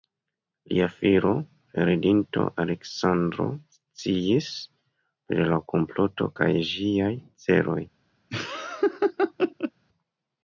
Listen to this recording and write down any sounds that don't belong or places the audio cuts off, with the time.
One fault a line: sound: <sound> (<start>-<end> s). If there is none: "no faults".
sound: laugh (8.3-9.7 s)